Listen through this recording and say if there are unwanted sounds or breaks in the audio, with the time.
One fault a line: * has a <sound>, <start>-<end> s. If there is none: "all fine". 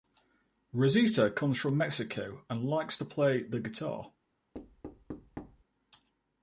* has a thud, 4.5-5.6 s